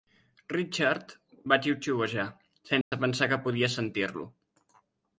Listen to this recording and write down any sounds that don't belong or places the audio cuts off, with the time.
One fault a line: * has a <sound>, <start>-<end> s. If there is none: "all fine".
* has a dropout, 2.8-2.9 s